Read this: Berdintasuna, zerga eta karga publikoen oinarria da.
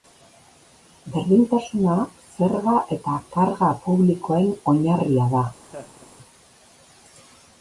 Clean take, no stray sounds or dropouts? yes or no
no